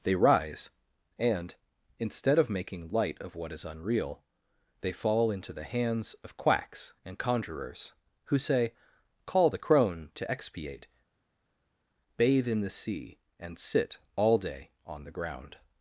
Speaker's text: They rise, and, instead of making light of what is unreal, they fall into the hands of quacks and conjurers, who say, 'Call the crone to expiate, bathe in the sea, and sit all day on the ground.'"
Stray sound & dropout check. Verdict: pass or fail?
pass